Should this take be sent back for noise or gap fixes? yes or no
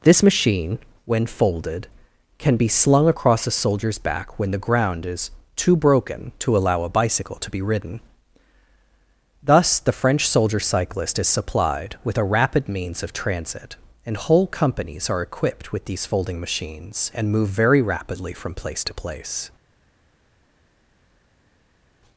no